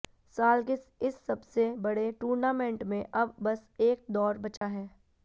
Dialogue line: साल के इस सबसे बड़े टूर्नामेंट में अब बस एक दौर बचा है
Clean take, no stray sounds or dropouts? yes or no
no